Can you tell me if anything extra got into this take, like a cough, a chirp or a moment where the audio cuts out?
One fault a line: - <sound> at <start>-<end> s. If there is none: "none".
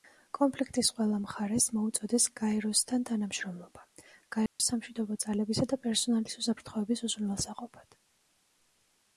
- dropout at 4.5-4.6 s